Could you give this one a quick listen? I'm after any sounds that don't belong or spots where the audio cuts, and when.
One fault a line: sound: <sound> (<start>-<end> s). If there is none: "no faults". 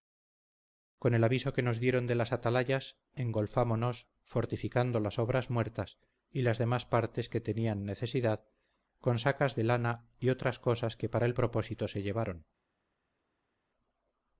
no faults